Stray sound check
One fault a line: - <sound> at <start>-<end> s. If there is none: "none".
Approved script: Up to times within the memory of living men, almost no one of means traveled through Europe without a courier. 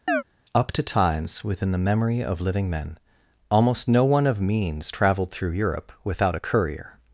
- chirp at 0.1-0.2 s